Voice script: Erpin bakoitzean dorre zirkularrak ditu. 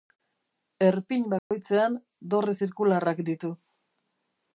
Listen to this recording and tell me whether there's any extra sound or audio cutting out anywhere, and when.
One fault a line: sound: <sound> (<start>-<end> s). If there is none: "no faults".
sound: dropout (1.4-1.5 s)